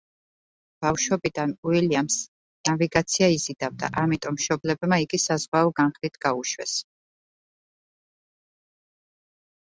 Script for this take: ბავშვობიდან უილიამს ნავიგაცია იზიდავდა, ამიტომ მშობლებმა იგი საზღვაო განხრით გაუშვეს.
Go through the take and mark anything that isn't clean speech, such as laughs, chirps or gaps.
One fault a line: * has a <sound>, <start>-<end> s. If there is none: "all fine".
all fine